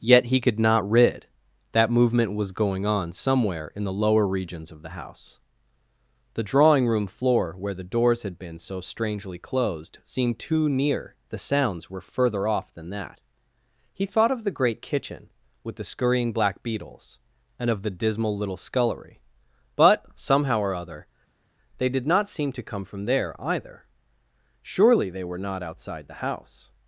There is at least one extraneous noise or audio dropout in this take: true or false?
false